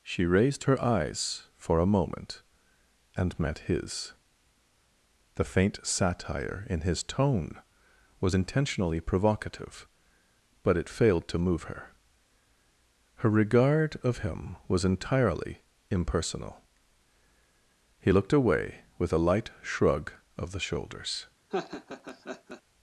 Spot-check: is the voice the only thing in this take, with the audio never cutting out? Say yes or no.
no